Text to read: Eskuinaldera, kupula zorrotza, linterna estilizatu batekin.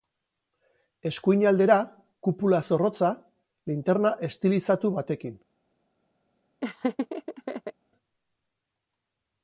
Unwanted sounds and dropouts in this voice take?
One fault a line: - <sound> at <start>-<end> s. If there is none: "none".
- laugh at 6.6-7.7 s